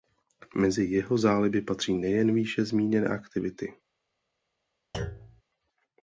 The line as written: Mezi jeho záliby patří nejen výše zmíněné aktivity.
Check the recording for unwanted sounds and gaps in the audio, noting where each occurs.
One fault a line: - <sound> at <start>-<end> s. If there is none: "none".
- thud at 4.9-5.4 s